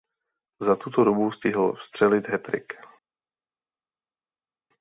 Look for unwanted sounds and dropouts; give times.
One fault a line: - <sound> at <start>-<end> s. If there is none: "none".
none